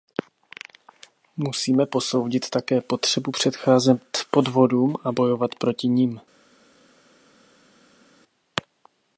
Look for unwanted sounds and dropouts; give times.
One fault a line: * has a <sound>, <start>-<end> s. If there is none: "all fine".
all fine